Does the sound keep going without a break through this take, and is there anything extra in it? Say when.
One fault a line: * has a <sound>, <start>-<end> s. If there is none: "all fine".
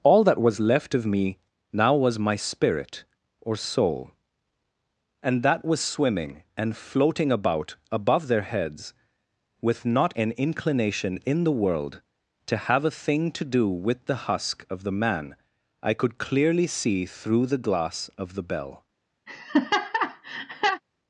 * has a laugh, 19.3-20.8 s